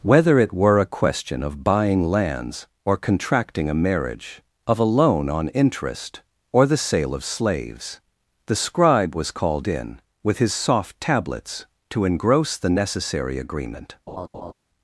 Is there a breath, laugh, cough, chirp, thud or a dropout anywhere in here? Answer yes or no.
yes